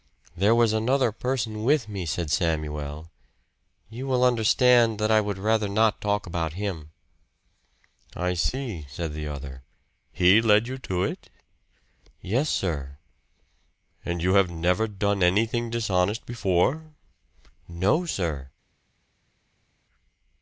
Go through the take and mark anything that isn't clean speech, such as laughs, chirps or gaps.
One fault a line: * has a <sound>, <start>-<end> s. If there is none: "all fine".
all fine